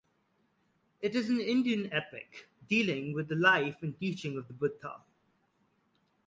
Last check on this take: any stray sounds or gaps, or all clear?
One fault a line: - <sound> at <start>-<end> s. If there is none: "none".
none